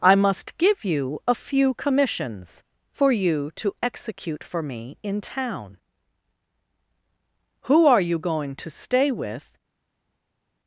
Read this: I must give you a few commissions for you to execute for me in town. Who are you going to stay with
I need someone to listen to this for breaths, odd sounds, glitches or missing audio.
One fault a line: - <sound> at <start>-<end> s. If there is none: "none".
none